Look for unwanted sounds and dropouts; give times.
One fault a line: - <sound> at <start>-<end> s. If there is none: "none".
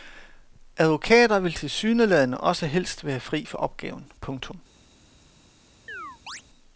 - chirp at 5.9-6.4 s